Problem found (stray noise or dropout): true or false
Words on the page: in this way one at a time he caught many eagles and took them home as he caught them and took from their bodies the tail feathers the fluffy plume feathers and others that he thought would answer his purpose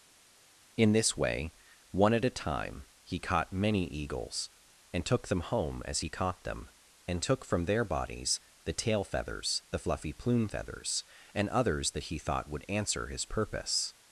false